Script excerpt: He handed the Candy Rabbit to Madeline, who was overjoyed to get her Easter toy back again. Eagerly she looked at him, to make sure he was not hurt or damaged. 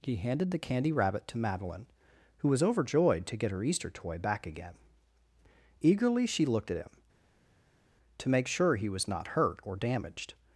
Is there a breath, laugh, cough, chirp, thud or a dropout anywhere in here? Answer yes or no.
no